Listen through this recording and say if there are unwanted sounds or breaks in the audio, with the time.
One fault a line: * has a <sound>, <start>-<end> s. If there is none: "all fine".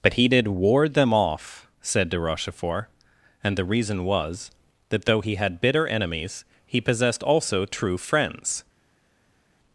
all fine